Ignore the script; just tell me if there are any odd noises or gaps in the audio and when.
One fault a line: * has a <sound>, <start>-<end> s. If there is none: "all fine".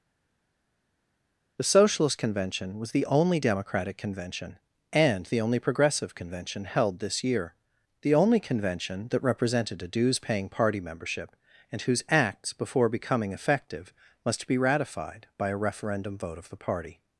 all fine